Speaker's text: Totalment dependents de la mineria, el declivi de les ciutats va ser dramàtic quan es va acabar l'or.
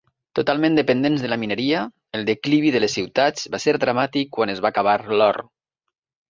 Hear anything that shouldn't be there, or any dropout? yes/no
no